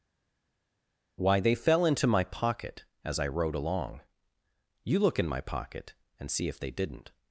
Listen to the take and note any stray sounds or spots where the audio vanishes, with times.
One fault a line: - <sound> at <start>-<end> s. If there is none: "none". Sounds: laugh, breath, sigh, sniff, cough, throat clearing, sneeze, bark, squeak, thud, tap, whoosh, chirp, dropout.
none